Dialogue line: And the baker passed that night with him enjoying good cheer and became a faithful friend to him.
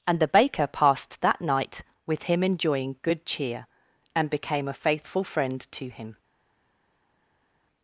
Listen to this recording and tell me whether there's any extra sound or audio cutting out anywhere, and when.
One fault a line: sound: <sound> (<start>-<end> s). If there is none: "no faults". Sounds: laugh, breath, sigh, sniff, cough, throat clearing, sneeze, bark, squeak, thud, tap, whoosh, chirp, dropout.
no faults